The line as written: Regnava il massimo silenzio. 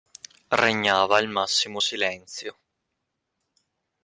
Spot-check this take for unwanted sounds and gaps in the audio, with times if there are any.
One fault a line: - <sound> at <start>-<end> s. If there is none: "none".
none